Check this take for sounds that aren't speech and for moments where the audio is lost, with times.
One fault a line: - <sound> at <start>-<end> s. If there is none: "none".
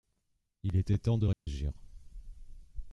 - dropout at 1.3-1.5 s